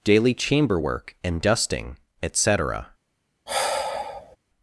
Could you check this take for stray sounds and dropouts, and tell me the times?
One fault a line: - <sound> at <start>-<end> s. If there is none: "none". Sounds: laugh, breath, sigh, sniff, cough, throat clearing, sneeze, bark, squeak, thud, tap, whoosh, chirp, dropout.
- sigh at 3.5-4.4 s